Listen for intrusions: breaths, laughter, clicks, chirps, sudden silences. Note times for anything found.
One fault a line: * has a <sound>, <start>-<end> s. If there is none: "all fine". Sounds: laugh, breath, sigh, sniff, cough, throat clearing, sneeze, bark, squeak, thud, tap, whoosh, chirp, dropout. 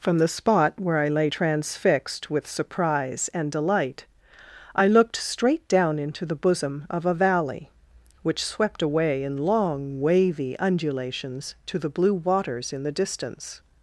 all fine